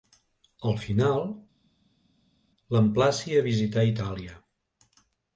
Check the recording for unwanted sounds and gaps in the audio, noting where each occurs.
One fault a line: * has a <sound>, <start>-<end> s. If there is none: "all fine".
all fine